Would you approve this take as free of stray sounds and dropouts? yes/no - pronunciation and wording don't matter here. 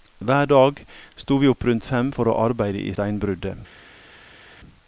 yes